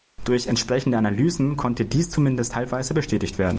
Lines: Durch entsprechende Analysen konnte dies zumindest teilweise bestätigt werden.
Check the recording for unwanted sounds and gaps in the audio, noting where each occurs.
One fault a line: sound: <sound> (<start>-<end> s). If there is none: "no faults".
no faults